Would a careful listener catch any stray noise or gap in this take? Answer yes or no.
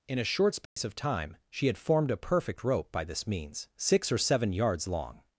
yes